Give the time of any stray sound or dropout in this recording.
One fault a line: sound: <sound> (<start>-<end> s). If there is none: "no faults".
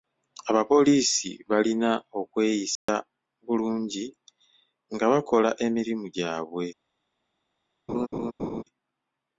sound: dropout (2.8-2.9 s)
sound: laugh (7.9-8.6 s)